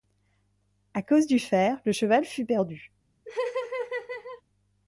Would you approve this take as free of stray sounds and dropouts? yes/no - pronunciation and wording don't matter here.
no